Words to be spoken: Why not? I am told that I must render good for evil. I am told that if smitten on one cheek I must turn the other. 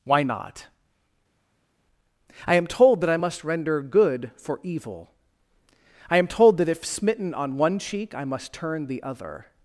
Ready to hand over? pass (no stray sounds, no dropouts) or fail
pass